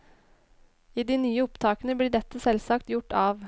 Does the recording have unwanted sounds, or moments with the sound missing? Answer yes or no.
no